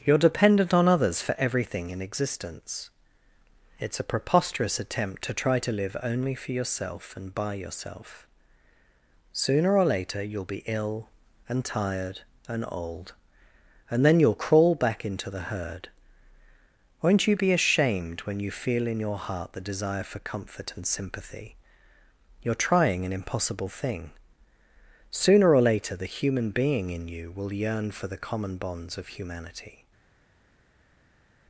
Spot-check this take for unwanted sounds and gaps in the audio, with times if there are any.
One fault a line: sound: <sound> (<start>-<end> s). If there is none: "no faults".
no faults